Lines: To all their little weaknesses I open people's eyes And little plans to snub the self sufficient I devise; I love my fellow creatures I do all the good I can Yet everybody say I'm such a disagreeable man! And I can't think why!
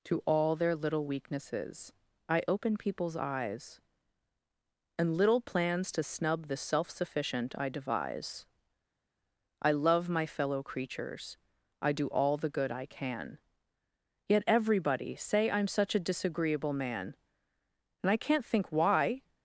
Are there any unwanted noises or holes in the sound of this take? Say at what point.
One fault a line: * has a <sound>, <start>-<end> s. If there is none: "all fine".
all fine